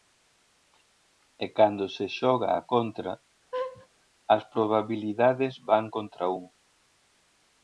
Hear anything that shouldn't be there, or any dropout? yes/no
yes